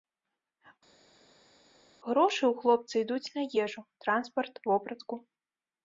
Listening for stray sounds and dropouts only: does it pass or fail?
pass